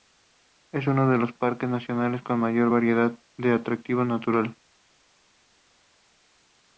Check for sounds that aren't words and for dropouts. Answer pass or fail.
pass